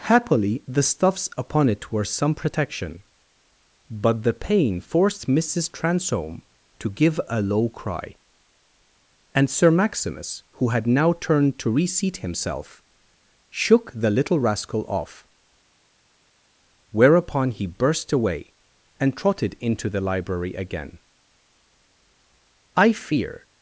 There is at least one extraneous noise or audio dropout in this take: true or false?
false